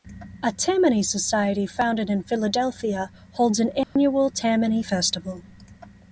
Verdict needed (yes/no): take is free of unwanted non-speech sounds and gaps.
no